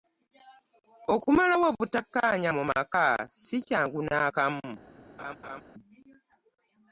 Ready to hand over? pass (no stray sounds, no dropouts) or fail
fail